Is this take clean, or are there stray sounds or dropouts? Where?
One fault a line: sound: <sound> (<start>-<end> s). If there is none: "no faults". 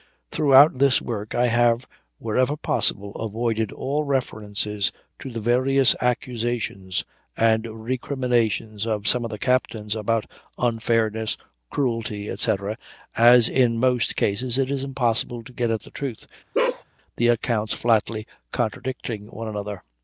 sound: bark (16.5-16.8 s)